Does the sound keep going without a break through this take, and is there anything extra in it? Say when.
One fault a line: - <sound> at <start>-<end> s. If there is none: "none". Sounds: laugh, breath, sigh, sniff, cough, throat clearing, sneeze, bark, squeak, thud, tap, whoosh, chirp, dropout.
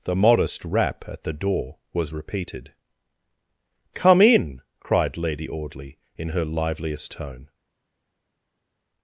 none